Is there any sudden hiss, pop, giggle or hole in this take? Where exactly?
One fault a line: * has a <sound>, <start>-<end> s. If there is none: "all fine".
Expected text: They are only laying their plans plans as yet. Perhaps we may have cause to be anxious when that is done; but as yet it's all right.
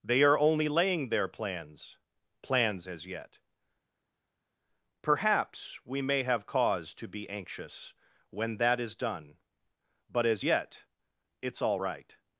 all fine